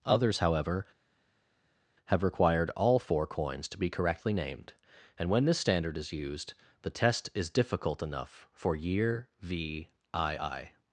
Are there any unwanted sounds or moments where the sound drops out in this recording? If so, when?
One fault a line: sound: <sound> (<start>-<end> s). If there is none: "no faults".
no faults